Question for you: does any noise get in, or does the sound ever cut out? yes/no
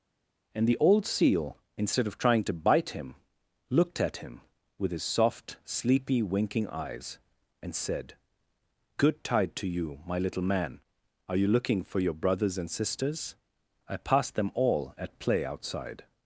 no